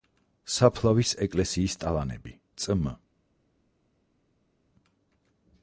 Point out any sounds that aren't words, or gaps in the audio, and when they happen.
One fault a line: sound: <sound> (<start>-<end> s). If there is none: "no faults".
no faults